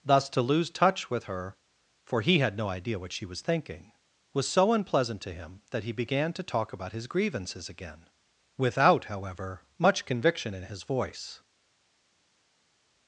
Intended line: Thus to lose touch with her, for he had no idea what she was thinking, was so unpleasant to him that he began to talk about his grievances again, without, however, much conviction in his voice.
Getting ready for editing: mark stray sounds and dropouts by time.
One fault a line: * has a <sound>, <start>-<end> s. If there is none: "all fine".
all fine